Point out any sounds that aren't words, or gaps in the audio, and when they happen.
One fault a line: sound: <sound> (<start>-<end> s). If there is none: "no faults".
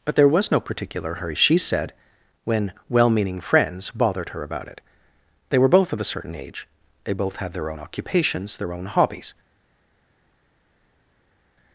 no faults